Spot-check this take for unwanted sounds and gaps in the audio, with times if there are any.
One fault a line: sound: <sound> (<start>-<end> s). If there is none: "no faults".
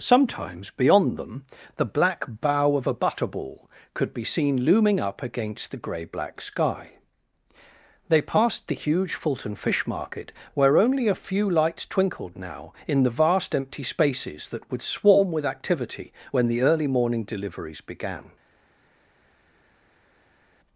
no faults